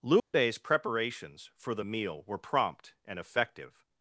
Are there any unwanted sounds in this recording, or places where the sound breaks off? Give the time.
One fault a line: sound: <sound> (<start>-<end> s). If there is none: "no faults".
sound: dropout (0.2-0.3 s)